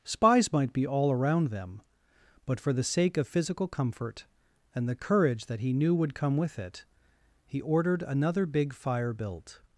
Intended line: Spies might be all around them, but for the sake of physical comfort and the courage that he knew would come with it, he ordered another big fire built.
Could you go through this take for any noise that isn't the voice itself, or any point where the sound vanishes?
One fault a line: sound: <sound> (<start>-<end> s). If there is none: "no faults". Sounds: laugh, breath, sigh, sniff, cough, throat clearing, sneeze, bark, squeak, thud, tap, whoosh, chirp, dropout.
no faults